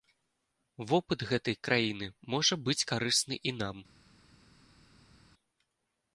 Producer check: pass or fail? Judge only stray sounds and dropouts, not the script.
pass